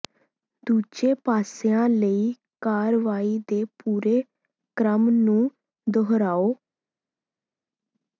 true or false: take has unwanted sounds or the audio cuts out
false